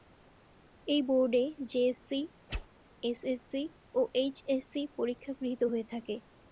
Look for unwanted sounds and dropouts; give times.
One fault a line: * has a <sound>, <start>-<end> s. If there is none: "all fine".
* has a whoosh, 2.5-2.7 s